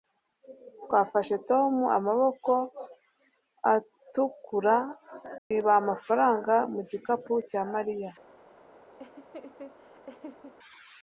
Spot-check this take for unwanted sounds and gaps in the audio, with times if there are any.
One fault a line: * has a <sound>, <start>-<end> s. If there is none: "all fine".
* has a dropout, 5.4-5.5 s
* has a laugh, 9.0-10.5 s